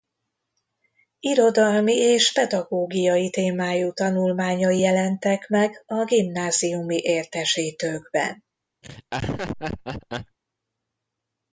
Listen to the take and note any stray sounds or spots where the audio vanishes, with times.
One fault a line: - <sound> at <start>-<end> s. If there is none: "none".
- laugh at 8.8-10.4 s